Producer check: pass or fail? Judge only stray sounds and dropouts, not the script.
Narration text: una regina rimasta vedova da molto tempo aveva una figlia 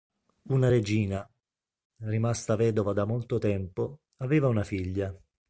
pass